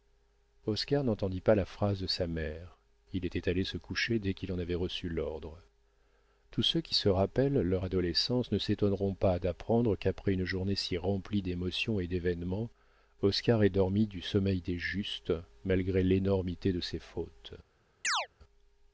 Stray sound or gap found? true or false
true